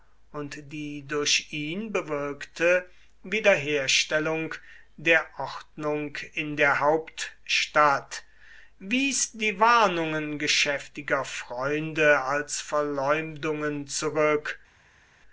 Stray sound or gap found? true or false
false